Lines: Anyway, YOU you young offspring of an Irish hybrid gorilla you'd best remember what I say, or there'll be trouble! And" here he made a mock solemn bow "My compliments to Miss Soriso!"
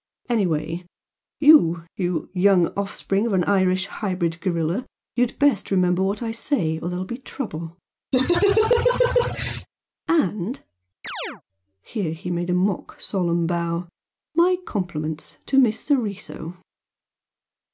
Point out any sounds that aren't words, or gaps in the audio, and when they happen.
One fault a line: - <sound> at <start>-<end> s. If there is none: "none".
- laugh at 8.1-9.7 s
- chirp at 11.0-11.4 s